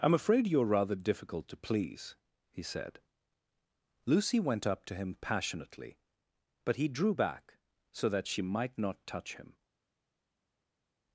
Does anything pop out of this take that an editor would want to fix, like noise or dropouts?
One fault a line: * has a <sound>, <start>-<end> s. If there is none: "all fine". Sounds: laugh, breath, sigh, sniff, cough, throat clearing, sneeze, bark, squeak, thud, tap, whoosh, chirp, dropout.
all fine